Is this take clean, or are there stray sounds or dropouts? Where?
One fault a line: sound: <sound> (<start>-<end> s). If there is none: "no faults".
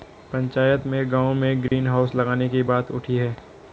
sound: dropout (1.7-1.7 s)